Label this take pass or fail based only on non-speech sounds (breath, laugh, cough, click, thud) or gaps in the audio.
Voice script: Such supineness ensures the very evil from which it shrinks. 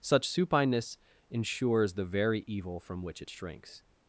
pass